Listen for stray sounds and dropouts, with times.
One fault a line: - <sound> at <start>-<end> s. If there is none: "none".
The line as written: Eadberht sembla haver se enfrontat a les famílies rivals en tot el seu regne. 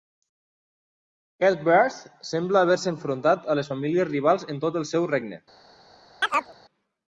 - chirp at 6.2-6.5 s